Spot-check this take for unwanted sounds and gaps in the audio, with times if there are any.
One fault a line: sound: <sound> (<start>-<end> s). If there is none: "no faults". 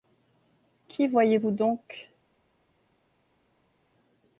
no faults